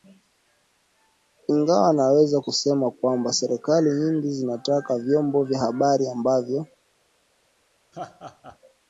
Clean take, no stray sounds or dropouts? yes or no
no